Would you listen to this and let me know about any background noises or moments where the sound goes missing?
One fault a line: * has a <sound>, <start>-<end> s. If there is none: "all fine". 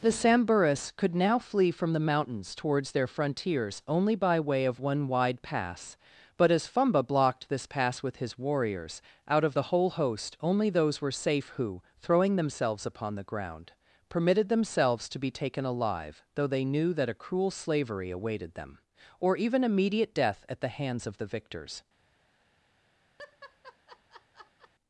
* has a laugh, 23.2-24.7 s